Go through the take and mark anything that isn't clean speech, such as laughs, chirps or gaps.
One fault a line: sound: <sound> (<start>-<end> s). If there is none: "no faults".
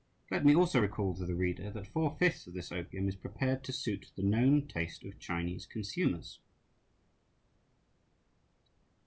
no faults